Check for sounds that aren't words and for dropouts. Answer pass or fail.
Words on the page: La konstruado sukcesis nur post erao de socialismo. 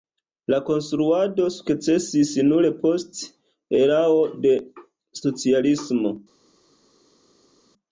pass